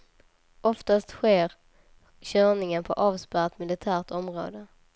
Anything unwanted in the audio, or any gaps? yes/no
no